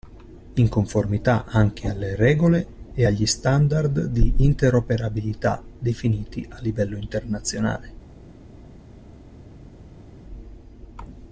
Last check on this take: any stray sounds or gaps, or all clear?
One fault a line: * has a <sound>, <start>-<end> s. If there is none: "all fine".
all fine